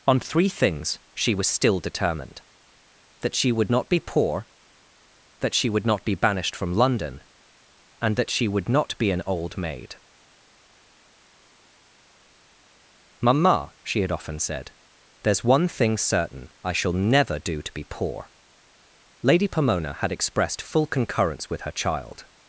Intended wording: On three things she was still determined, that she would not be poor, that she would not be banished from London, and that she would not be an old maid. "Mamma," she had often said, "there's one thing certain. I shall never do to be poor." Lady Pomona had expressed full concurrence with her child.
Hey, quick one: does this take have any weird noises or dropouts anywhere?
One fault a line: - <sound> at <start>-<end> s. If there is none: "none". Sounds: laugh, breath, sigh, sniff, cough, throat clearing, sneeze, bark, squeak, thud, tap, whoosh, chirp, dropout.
none